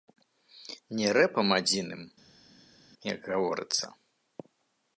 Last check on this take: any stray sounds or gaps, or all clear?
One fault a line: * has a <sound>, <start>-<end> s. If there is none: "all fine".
all fine